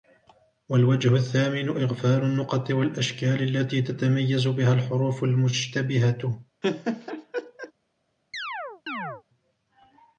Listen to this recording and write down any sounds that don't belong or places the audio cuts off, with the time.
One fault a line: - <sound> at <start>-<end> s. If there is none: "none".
- laugh at 6.6-7.7 s
- chirp at 8.3-9.2 s